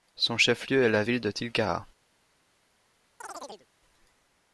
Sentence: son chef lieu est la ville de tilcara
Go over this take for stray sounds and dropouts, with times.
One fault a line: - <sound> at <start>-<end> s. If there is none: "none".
- chirp at 3.2-3.7 s